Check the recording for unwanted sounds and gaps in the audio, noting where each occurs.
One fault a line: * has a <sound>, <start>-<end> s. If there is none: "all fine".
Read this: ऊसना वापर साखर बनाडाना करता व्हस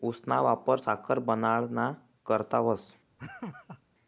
* has a laugh, 3.2-3.8 s